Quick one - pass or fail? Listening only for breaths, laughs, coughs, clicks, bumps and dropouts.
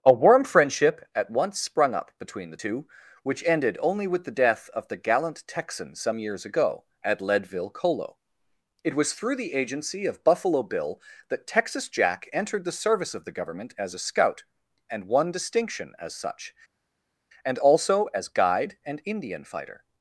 pass